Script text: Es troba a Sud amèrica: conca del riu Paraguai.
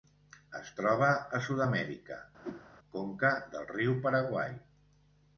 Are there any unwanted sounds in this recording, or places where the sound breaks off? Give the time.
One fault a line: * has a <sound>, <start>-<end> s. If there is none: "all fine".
* has a whoosh, 2.4-2.7 s